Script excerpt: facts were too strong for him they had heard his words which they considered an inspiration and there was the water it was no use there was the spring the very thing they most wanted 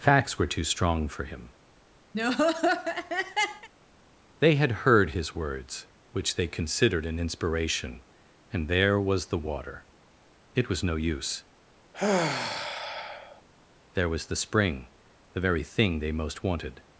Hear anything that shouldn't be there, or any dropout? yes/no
yes